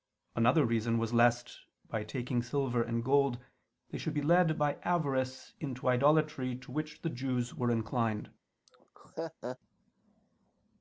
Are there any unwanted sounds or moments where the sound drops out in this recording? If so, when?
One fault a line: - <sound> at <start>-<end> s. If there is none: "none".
- laugh at 8.7-9.6 s